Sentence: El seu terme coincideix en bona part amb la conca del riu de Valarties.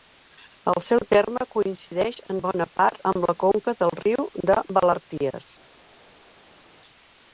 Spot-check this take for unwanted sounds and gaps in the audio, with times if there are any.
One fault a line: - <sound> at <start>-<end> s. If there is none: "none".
none